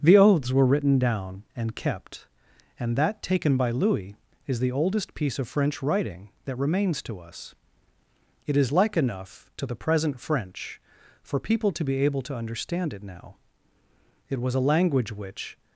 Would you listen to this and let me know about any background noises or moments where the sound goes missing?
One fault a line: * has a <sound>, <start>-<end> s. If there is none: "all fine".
all fine